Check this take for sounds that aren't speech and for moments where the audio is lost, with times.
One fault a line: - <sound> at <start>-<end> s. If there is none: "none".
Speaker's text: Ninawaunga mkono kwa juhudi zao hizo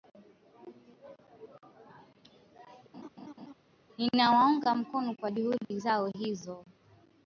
- laugh at 2.9-3.5 s
- dropout at 5.6-5.7 s